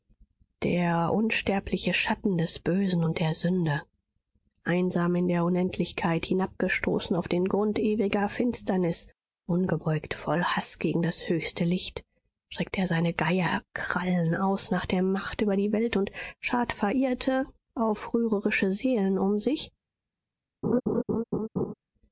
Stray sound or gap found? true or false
true